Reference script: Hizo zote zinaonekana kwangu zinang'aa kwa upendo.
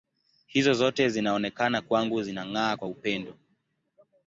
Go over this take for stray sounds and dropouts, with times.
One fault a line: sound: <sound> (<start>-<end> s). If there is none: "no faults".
no faults